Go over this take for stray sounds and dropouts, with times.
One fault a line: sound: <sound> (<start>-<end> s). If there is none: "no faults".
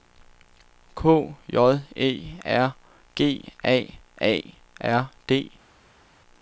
no faults